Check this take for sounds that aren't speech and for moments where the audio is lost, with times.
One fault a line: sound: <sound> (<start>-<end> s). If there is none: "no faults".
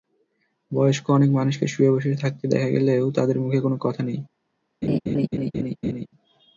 sound: laugh (4.8-6.1 s)